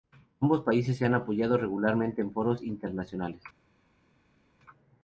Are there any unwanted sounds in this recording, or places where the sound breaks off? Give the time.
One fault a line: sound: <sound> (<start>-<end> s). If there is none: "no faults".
no faults